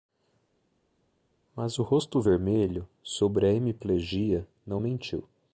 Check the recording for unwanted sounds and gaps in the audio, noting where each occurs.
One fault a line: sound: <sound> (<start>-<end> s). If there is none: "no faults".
no faults